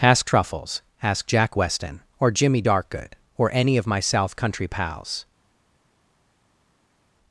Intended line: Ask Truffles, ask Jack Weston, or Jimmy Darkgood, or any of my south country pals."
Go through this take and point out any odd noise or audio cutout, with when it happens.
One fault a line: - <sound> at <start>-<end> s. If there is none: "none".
none